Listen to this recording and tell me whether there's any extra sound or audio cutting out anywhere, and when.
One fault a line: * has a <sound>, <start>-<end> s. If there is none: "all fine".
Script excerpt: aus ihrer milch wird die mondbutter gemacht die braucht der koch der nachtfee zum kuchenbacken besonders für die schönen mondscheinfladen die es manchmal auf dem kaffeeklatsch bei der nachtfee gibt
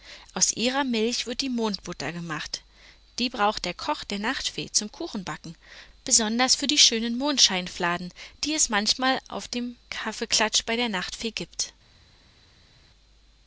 all fine